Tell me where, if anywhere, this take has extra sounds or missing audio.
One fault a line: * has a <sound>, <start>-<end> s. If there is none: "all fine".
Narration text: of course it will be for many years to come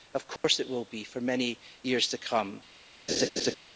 * has a dropout, 0.4-0.4 s
* has a laugh, 3.1-3.6 s